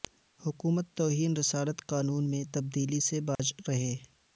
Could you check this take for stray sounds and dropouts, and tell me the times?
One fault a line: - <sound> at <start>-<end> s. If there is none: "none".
- dropout at 3.4-3.4 s